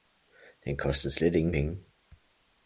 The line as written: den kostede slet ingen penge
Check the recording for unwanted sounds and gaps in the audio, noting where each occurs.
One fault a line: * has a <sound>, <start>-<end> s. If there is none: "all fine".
all fine